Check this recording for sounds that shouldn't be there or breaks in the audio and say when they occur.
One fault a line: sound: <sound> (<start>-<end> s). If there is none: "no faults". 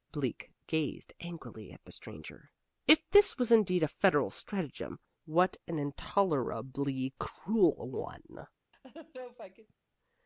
sound: laugh (8.7-9.7 s)